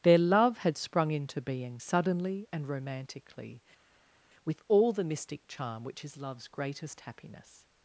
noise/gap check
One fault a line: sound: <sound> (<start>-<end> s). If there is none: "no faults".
no faults